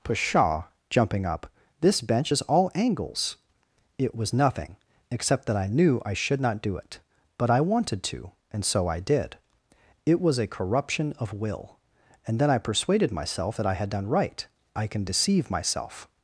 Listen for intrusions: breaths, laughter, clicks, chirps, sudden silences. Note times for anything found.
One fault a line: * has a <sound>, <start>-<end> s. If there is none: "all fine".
all fine